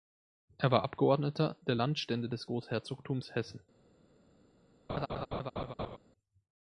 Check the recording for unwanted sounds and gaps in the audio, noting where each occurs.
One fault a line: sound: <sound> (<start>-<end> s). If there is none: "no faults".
sound: laugh (4.9-6.0 s)